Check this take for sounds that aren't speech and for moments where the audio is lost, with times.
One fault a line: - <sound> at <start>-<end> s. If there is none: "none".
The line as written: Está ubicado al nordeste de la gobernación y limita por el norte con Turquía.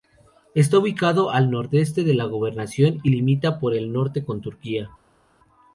none